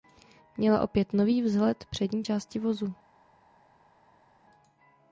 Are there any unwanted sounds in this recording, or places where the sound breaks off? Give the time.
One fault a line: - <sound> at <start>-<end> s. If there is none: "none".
none